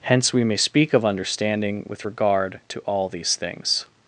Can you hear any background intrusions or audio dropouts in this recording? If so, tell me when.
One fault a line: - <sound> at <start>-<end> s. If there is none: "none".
none